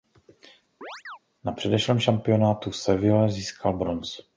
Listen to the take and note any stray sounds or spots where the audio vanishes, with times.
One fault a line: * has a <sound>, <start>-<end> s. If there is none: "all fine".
* has a chirp, 0.8-1.2 s